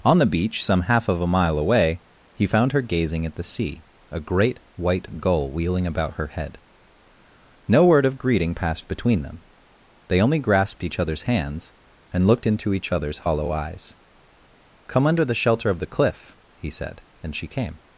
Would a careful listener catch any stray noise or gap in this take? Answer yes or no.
no